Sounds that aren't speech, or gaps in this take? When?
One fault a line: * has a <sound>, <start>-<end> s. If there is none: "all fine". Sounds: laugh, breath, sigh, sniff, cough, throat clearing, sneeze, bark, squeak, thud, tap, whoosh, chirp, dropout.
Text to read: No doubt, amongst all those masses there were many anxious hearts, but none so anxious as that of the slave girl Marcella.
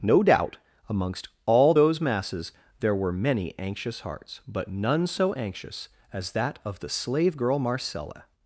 all fine